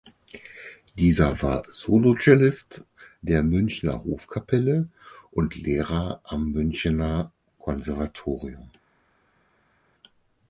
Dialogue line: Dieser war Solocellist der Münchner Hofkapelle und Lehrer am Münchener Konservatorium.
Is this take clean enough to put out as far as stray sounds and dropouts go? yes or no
yes